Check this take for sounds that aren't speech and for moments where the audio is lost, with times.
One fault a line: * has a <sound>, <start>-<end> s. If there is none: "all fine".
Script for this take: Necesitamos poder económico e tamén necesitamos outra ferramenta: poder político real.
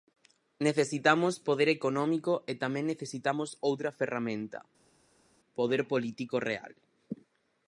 all fine